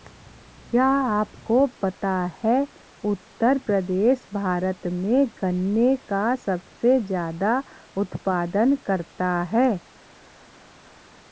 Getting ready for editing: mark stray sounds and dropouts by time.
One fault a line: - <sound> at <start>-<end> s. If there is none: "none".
none